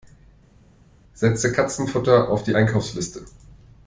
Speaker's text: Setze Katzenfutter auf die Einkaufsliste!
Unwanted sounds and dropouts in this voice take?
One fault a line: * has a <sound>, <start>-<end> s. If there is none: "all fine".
all fine